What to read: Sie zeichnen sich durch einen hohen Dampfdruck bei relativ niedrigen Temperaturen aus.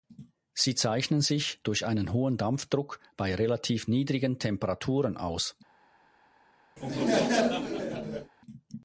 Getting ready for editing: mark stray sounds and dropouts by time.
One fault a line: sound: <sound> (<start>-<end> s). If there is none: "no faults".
sound: laugh (6.8-8.3 s)